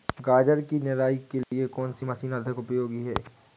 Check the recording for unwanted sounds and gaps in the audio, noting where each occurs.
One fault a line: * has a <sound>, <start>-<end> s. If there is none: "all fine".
* has a dropout, 1.4-1.5 s